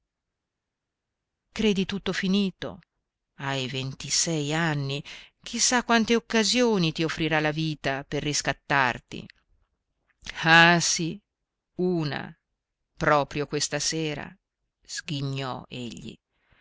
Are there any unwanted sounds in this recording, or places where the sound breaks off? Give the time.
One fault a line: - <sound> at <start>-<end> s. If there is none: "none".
none